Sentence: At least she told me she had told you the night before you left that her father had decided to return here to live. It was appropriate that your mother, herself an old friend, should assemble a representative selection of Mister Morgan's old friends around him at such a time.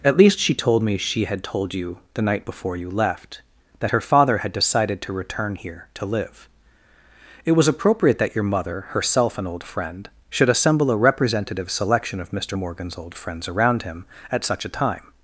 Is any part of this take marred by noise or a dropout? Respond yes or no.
no